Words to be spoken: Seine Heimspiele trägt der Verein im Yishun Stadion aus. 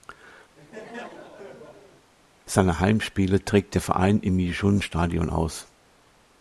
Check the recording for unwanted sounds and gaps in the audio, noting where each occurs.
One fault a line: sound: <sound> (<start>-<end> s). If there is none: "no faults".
sound: laugh (0.5-2.1 s)